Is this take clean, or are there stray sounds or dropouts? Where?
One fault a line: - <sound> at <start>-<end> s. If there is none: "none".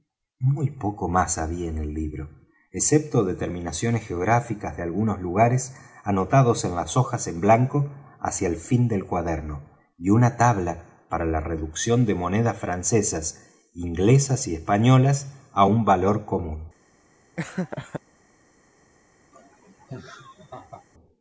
- laugh at 17.4-18.0 s
- laugh at 19.3-20.8 s